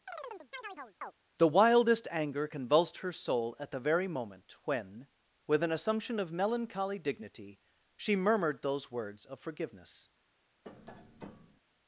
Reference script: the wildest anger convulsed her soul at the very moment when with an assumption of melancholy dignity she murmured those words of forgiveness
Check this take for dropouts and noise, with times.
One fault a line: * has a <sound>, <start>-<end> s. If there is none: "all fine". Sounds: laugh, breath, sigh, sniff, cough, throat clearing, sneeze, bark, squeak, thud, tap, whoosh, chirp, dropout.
* has a chirp, 0.1-1.1 s
* has a tap, 10.6-11.6 s